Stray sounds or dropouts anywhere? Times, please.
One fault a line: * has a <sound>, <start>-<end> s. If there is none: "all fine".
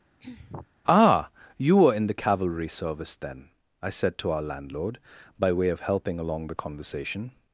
* has a throat clearing, 0.2-0.7 s